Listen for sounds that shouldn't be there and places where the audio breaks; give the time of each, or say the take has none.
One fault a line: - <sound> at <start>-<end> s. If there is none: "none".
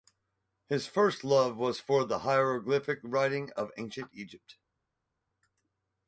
none